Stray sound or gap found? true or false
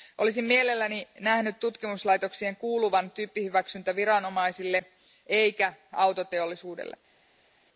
false